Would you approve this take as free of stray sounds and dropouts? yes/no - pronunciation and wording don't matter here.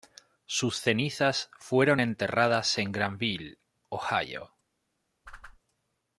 no